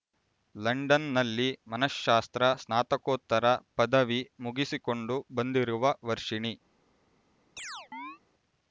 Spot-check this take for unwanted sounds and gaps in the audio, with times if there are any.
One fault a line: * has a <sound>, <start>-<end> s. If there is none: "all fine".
* has a chirp, 7.6-8.2 s